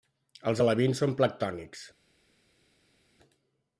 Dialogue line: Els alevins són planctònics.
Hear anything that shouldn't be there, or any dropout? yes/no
no